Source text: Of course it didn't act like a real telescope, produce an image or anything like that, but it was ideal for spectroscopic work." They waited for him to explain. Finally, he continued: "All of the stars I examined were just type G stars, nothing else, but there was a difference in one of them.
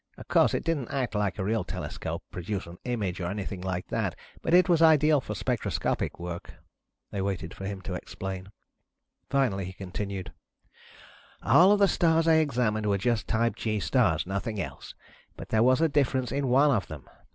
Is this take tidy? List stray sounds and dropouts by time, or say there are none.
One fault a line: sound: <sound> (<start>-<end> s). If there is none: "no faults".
no faults